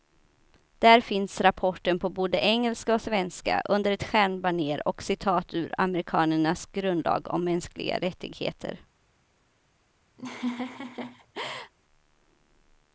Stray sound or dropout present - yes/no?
yes